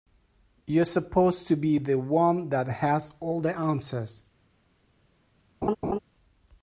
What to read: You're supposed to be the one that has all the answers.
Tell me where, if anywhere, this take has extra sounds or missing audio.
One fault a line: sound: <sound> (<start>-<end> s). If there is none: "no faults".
sound: laugh (5.6-6.0 s)